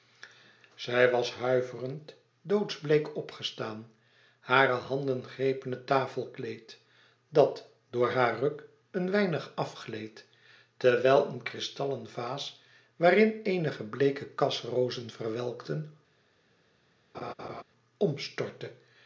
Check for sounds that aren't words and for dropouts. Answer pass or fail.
fail